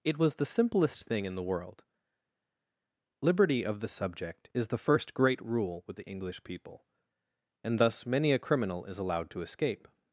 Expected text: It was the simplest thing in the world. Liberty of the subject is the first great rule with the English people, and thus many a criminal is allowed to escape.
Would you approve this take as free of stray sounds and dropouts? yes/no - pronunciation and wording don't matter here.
yes